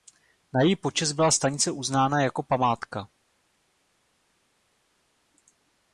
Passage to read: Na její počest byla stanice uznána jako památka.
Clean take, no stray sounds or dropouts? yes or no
yes